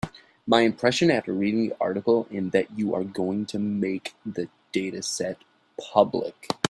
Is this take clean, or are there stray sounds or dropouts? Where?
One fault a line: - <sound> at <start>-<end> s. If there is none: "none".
none